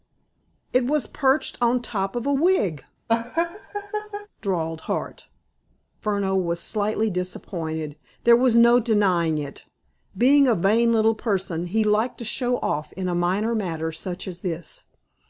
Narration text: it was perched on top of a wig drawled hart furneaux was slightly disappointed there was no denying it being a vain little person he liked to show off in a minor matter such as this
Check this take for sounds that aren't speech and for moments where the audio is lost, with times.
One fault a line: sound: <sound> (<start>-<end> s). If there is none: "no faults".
sound: laugh (3.1-4.3 s)